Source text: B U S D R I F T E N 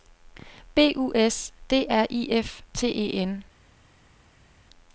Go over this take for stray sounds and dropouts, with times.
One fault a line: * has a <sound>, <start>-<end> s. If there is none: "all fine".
all fine